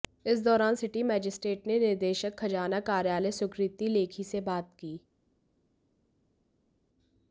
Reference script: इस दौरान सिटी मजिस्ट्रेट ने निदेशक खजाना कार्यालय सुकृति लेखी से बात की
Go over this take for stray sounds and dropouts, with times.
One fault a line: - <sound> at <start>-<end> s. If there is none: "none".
none